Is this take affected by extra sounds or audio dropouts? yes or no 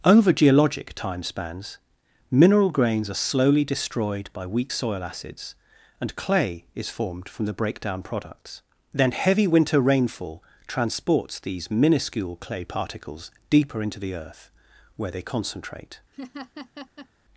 yes